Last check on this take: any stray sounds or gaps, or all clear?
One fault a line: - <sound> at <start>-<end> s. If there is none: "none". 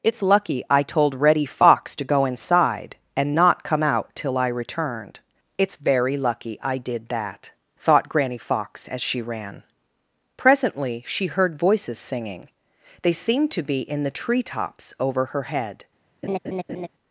- laugh at 16.2-16.9 s